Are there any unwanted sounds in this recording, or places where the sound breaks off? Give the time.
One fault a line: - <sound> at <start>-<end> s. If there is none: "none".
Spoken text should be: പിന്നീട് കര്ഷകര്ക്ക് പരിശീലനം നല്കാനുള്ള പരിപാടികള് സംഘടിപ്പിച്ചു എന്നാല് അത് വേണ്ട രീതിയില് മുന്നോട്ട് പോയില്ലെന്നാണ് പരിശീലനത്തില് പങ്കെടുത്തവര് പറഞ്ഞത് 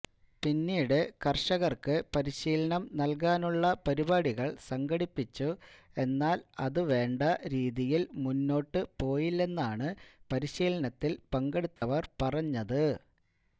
- dropout at 11.8-11.8 s